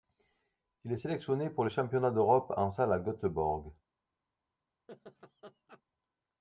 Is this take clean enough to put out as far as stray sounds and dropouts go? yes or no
no